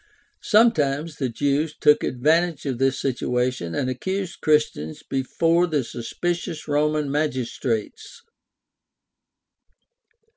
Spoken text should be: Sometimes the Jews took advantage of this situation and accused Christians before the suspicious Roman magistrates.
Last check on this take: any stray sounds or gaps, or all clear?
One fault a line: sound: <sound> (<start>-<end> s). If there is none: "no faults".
no faults